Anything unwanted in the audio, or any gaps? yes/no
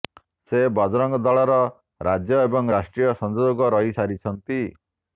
no